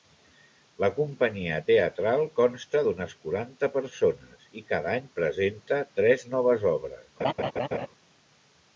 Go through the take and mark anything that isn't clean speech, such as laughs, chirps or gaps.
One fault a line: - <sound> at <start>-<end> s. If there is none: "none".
- laugh at 7.2-7.9 s